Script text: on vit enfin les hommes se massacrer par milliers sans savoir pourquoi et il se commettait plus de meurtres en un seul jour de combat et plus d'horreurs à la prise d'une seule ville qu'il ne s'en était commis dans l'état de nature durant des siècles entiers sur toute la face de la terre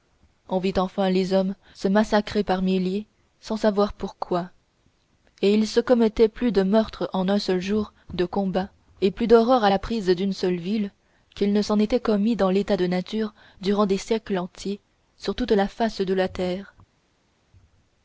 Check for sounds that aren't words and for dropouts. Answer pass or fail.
pass